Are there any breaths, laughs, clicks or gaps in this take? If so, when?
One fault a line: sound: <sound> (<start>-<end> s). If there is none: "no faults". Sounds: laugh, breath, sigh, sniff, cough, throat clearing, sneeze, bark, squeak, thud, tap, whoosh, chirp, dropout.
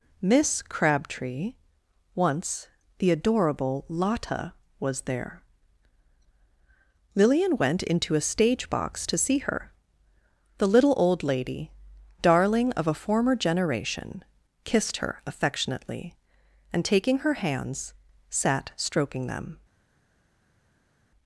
no faults